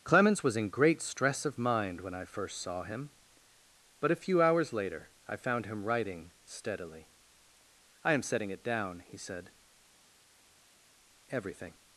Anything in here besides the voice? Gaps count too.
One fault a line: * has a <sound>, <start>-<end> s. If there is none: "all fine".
all fine